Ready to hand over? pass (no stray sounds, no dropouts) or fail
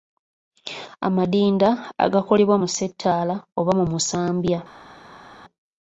pass